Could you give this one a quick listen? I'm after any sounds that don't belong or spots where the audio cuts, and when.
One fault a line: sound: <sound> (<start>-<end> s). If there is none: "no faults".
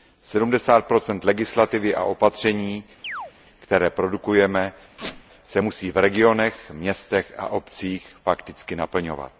sound: chirp (3.0-3.3 s)
sound: squeak (5.0-5.2 s)